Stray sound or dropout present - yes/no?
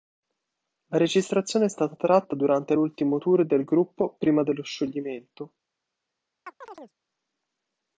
yes